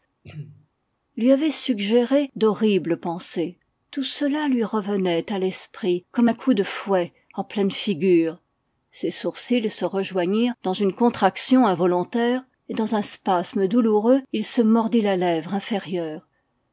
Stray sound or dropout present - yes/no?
yes